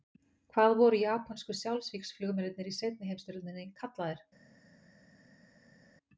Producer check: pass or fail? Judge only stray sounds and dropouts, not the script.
pass